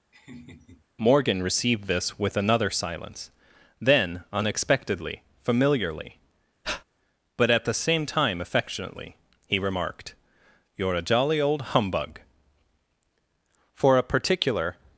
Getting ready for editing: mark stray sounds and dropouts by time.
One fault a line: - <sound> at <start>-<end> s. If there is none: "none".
- laugh at 0.1-0.9 s
- breath at 6.6-6.8 s